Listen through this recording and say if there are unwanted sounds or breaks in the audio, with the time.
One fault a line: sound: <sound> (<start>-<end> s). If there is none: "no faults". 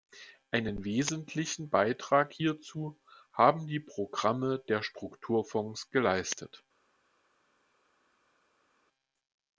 no faults